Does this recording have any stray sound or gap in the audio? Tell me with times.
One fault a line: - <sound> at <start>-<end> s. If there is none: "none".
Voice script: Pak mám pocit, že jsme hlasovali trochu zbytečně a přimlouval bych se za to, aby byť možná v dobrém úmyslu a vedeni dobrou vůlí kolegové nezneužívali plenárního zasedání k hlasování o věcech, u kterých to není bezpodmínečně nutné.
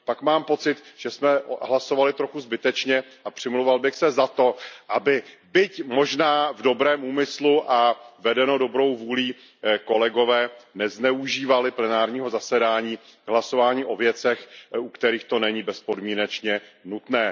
none